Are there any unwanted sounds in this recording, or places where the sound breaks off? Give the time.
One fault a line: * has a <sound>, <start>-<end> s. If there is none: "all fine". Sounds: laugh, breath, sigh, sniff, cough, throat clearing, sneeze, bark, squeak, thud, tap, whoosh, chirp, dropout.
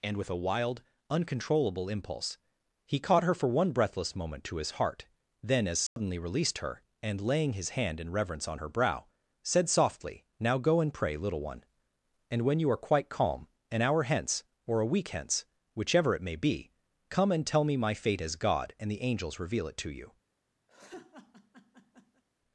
* has a dropout, 5.9-6.0 s
* has a laugh, 20.7-22.2 s